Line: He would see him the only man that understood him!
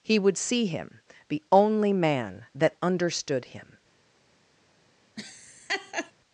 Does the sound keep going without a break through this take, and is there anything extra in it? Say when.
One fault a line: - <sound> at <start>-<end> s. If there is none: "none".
- laugh at 5.2-6.1 s